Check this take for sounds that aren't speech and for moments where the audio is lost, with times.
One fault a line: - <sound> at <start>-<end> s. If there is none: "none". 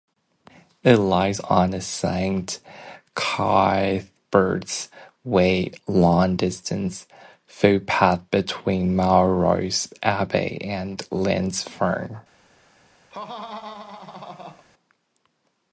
- laugh at 13.1-14.6 s